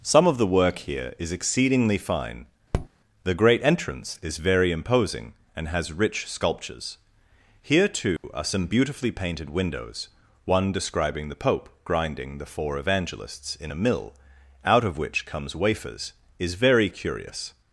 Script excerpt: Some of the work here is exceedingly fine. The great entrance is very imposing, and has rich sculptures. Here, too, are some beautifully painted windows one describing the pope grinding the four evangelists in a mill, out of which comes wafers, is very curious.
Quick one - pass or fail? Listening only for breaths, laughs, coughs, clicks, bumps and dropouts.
fail